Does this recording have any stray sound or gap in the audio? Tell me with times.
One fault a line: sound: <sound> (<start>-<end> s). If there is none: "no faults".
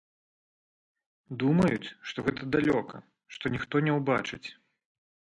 no faults